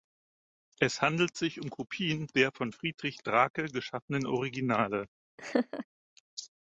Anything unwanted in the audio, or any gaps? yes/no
yes